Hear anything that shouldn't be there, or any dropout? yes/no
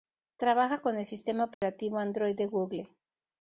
yes